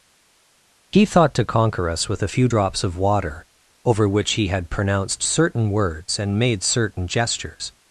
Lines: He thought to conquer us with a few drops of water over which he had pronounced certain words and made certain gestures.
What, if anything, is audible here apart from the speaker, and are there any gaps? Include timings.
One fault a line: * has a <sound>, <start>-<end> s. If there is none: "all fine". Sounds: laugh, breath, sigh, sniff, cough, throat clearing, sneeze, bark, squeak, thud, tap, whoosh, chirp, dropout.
all fine